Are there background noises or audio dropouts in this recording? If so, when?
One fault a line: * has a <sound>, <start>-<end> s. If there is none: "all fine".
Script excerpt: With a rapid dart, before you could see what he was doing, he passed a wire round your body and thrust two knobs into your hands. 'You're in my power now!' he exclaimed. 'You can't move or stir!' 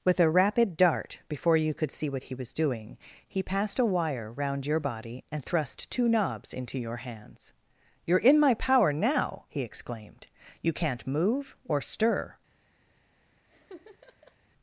* has a laugh, 13.5-14.4 s